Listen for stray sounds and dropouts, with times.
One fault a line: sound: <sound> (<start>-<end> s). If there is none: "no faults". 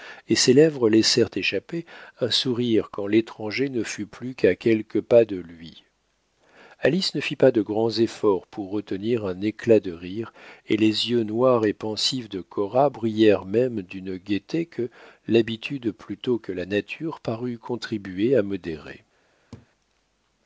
sound: laugh (19.5-19.7 s)